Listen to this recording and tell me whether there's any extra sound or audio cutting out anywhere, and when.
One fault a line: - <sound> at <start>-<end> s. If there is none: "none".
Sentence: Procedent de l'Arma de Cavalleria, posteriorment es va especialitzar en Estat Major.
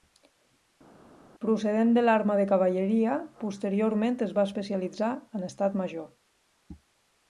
none